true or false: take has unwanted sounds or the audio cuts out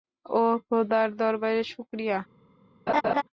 true